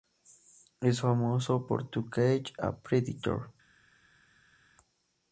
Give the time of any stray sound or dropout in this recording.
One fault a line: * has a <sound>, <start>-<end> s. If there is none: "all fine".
all fine